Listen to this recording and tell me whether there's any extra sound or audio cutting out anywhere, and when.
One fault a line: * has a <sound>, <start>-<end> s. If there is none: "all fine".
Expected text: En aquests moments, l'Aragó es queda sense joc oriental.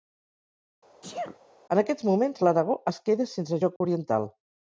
* has a sneeze, 1.0-1.4 s
* has a dropout, 3.8-3.8 s